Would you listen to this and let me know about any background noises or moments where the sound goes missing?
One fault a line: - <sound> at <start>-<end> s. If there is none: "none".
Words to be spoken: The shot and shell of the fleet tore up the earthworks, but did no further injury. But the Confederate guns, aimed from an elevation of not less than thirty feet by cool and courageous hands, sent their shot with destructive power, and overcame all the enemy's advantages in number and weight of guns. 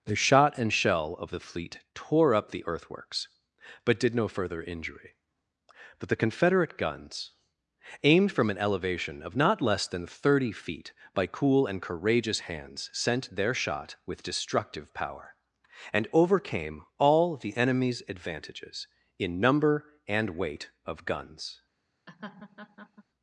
- laugh at 22.1-23.0 s